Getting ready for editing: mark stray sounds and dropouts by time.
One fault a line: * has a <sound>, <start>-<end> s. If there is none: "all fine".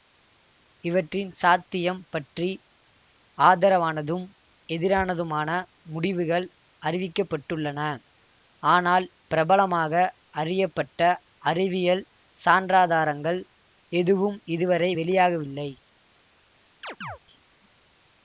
* has a chirp, 16.8-17.2 s